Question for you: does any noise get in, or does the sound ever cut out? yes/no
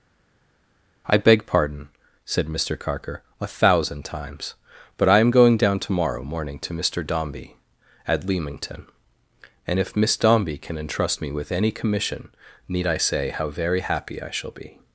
no